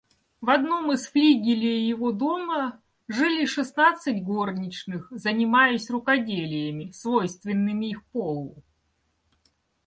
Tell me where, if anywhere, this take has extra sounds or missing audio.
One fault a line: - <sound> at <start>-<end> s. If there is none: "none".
none